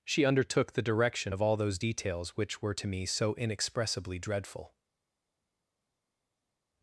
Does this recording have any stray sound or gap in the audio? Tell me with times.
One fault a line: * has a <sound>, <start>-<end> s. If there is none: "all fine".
all fine